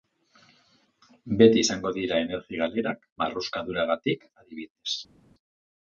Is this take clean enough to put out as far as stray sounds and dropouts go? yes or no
yes